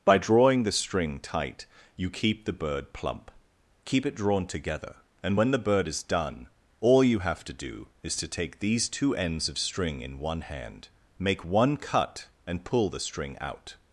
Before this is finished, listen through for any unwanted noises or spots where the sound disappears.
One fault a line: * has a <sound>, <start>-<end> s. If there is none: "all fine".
all fine